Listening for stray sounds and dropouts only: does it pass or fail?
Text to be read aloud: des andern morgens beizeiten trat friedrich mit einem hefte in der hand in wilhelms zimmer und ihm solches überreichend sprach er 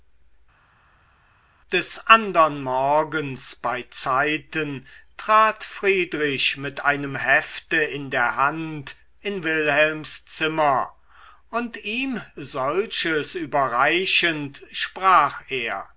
pass